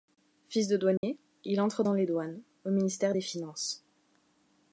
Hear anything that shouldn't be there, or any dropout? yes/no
yes